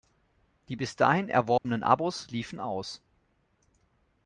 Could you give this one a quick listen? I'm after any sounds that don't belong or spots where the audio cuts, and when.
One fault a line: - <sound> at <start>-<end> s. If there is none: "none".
- dropout at 1.6-1.6 s